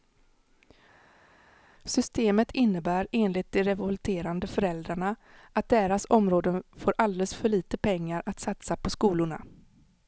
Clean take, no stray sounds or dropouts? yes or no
yes